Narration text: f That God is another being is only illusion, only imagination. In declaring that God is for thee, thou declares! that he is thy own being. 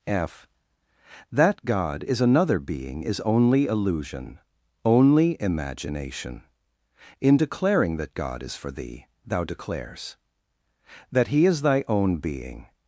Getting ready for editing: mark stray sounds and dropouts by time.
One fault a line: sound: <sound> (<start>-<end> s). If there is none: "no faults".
no faults